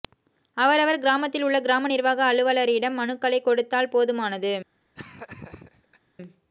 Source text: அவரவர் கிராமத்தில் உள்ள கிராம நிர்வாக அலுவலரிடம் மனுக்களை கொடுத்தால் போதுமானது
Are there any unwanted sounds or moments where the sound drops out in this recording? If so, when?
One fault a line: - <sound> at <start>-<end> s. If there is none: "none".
- laugh at 4.9-6.0 s